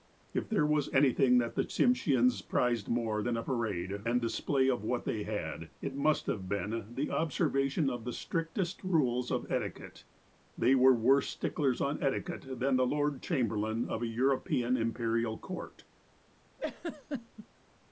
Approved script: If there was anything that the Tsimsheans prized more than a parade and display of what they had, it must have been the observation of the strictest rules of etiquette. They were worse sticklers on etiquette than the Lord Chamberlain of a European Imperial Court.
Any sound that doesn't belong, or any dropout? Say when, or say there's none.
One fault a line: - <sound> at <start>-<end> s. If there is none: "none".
- laugh at 16.6-17.5 s